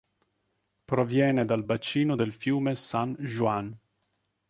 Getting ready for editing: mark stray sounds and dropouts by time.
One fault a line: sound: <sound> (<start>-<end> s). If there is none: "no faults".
no faults